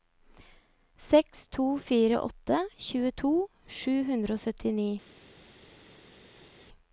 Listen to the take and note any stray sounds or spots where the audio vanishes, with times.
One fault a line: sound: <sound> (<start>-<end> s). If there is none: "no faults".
no faults